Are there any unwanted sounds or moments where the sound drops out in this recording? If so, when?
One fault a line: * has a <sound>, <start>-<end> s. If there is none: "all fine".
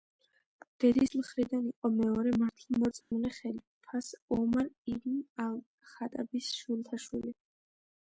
* has a dropout, 3.0-3.1 s